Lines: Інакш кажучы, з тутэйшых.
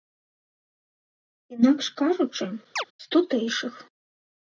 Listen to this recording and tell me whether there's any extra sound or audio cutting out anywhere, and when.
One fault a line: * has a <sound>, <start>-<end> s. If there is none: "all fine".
* has a chirp, 2.8-2.8 s